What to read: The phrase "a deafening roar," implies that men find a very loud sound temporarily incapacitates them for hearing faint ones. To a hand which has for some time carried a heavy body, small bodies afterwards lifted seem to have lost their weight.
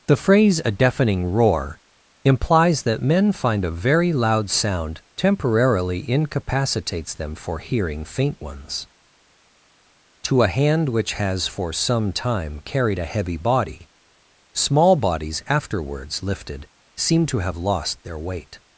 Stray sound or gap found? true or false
false